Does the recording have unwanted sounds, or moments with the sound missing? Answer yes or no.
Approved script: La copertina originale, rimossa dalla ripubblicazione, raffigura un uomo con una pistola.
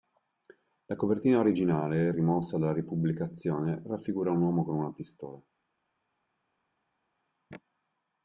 no